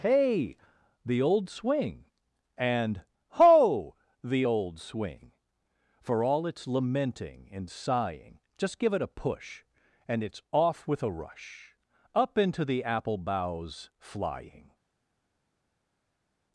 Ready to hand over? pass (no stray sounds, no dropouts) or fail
pass